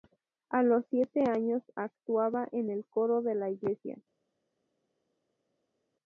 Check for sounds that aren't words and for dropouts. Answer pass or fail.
pass